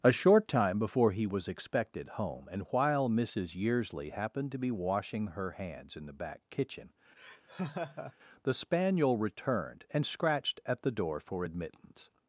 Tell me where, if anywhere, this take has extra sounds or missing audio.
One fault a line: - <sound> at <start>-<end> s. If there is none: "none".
- laugh at 7.2-8.1 s